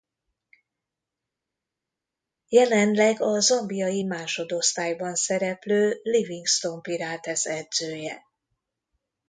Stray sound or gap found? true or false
false